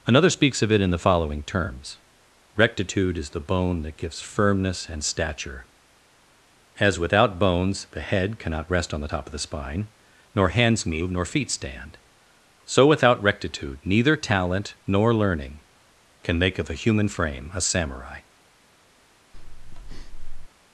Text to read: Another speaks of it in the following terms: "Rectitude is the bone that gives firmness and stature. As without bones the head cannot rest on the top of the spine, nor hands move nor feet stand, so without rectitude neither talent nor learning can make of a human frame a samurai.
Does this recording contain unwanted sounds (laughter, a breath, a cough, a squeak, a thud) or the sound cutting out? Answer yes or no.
yes